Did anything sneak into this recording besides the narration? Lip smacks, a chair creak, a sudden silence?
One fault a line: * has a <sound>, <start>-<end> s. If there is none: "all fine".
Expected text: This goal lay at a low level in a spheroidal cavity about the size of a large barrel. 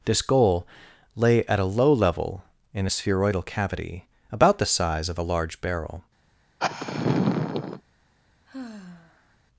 * has a sigh, 6.6-7.8 s
* has a sigh, 8.5-9.4 s